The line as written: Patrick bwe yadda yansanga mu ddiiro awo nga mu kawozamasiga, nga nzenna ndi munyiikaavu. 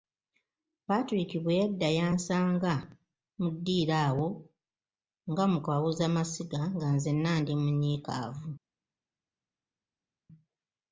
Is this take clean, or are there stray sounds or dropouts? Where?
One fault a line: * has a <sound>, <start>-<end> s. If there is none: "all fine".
all fine